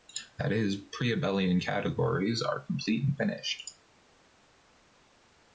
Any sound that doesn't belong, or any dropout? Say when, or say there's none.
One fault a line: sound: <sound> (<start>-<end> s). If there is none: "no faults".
no faults